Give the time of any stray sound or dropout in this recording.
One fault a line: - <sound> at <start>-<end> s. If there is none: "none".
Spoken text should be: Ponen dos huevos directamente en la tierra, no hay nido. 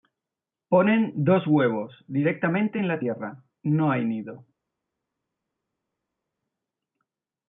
none